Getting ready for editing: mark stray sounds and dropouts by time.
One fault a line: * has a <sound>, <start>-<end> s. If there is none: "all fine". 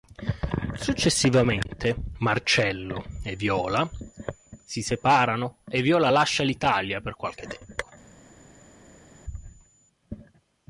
all fine